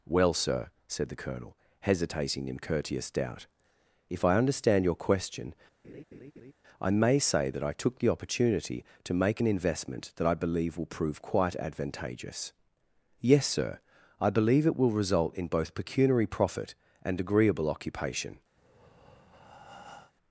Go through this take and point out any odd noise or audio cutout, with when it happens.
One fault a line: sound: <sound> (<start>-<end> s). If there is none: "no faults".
sound: laugh (5.8-6.5 s)
sound: breath (18.6-20.1 s)